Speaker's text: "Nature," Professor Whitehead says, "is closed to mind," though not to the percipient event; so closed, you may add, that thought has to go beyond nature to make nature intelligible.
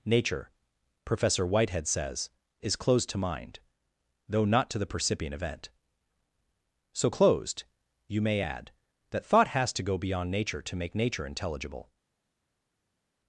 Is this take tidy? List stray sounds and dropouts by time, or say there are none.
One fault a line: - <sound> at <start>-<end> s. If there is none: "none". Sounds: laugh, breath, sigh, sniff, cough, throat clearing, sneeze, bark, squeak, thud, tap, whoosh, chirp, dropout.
none